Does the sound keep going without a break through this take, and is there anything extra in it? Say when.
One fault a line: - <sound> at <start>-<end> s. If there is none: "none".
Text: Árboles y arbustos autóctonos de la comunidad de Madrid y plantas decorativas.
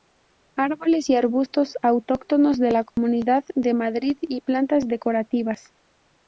- dropout at 2.9-3.0 s